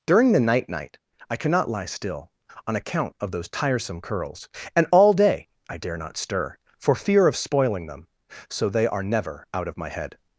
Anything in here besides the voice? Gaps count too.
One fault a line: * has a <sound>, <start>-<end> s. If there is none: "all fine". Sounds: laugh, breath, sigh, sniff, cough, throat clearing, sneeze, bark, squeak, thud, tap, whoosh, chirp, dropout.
all fine